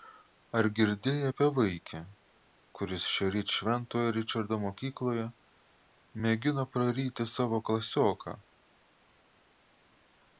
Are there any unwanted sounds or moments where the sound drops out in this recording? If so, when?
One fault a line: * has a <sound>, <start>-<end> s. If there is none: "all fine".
all fine